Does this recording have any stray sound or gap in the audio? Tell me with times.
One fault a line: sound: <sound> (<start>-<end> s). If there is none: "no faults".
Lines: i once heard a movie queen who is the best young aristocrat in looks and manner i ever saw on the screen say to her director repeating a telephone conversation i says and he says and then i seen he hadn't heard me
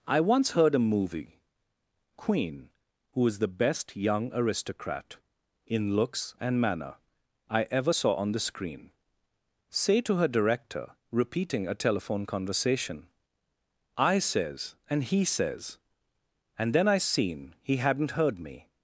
no faults